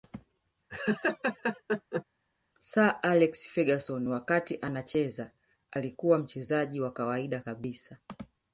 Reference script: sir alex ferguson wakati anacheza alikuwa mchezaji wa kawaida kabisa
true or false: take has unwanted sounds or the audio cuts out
true